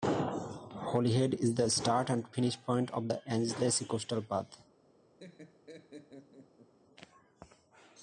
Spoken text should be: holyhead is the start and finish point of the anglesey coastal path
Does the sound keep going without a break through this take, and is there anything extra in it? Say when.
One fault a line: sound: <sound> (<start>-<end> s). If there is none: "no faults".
sound: laugh (5.2-6.7 s)